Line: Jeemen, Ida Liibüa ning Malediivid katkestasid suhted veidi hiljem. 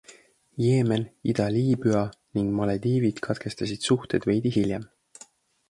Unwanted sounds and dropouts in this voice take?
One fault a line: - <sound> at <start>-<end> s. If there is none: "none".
none